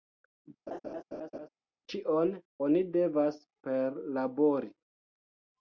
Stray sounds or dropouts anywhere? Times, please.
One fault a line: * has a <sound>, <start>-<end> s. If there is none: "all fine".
* has a laugh, 0.7-1.5 s